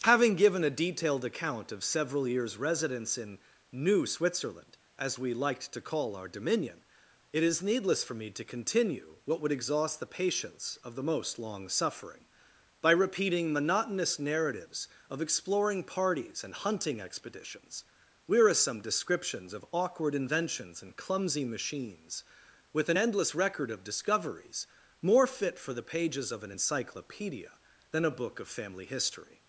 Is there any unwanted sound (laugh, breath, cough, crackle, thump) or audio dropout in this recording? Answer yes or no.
no